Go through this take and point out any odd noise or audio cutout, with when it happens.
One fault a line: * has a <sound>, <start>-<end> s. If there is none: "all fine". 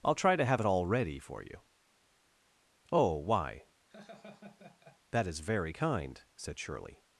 * has a laugh, 3.9-5.0 s